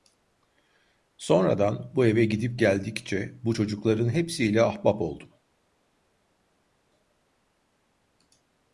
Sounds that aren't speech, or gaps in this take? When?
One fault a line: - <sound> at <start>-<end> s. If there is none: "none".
none